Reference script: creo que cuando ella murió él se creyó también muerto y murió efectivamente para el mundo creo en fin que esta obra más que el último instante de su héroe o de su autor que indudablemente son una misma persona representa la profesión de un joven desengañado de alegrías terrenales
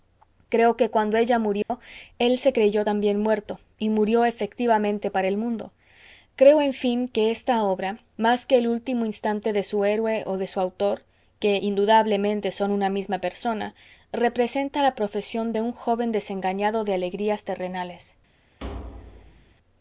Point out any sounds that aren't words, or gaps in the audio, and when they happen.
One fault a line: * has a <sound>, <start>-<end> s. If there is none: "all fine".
* has a dropout, 1.6-1.7 s
* has a thud, 18.6-19.5 s